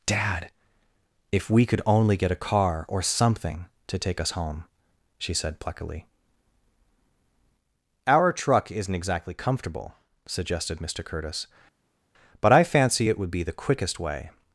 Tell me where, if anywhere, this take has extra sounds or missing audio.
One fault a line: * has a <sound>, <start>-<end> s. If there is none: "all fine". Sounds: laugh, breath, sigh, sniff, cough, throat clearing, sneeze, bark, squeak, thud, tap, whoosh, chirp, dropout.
all fine